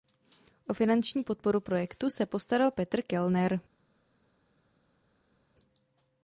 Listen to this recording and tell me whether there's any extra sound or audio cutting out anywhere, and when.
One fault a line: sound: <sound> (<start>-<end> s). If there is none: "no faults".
no faults